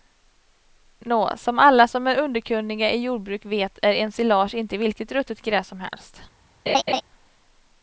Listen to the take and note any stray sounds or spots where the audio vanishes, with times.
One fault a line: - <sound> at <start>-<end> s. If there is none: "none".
- laugh at 6.7-7.0 s